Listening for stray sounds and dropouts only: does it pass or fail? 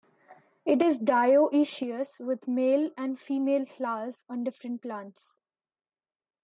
pass